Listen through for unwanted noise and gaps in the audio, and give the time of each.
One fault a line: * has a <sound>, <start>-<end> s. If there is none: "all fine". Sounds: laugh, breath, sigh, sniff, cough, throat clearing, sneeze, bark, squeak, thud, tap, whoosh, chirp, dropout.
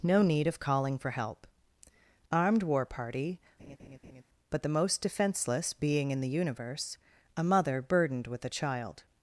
* has a laugh, 3.6-4.2 s